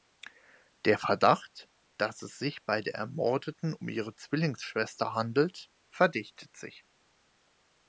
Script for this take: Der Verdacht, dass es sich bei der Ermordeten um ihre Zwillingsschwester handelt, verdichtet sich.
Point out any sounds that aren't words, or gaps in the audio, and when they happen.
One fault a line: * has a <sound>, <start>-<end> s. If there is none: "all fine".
all fine